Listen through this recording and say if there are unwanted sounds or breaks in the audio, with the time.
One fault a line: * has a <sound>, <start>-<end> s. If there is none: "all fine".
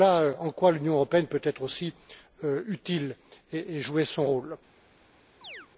* has a chirp, 5.4-5.7 s